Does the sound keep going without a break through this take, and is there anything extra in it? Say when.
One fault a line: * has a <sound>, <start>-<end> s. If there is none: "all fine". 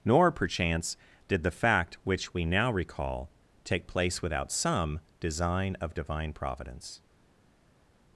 all fine